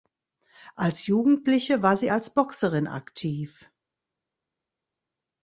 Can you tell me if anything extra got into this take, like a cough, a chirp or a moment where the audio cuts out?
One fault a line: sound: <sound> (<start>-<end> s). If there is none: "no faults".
no faults